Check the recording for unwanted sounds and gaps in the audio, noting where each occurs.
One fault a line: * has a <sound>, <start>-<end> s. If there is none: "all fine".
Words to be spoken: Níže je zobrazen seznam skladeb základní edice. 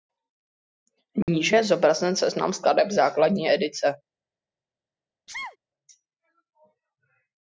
* has a dropout, 1.2-1.3 s
* has a sneeze, 5.3-5.6 s